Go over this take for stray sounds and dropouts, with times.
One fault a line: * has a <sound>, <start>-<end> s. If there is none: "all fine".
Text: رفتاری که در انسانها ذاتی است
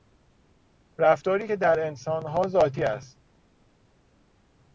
all fine